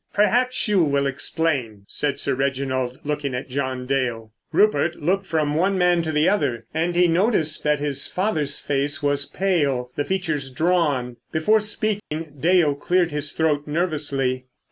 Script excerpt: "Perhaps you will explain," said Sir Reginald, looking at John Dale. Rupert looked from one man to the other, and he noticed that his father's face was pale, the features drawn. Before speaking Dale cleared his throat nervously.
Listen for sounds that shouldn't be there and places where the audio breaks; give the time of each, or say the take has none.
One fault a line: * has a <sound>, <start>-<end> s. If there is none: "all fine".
* has a dropout, 12.0-12.1 s